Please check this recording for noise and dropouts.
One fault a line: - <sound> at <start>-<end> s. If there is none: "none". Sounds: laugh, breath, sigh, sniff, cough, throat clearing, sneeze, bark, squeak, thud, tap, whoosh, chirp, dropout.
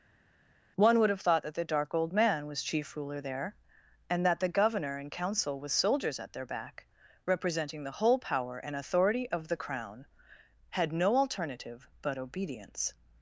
none